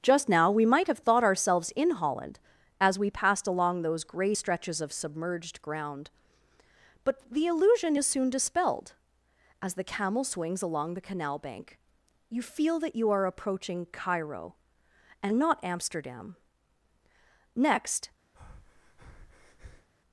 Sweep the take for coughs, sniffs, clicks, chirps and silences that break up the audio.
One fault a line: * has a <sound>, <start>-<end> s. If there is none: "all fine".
* has a breath, 18.3-19.9 s